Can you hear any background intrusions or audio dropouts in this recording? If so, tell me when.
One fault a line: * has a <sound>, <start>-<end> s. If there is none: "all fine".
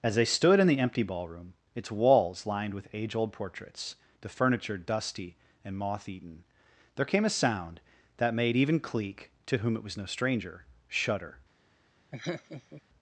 * has a laugh, 12.1-12.8 s